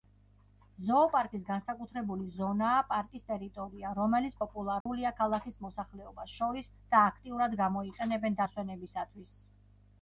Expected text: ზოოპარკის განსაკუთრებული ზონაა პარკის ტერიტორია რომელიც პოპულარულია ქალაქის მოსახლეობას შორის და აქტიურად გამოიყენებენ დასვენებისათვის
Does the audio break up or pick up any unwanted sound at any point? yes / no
yes